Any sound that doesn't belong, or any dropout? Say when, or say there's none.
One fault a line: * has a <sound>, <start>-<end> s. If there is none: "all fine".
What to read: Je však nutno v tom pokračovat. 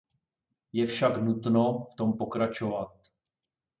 all fine